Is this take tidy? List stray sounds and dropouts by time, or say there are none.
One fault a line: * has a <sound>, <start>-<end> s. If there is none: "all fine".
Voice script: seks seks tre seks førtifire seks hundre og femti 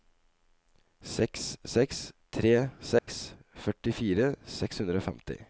* has a dropout, 3.0-3.1 s